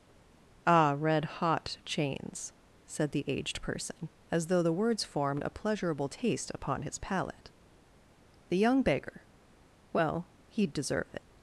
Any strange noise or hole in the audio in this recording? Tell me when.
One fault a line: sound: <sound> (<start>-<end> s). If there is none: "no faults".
no faults